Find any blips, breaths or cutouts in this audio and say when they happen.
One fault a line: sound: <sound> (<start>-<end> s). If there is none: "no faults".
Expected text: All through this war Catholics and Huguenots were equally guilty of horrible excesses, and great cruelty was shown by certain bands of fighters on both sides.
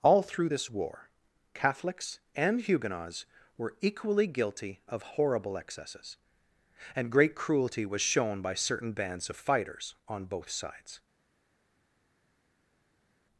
no faults